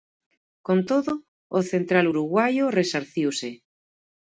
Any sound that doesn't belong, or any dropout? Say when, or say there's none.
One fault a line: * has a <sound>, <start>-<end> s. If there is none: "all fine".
all fine